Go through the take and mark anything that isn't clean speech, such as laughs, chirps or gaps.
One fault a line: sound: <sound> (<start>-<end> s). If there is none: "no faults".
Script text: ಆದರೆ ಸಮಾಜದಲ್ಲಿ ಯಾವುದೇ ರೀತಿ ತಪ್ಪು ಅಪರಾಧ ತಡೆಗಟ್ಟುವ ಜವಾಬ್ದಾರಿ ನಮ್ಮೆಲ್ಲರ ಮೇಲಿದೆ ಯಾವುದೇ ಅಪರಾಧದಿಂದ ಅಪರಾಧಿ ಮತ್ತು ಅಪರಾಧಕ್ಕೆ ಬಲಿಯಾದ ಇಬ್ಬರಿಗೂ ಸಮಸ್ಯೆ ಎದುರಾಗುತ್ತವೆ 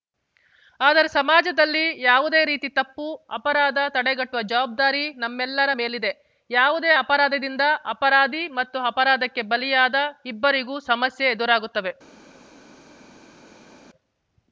no faults